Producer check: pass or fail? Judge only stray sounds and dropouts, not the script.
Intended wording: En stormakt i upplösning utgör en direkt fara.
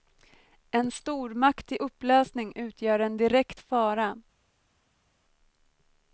pass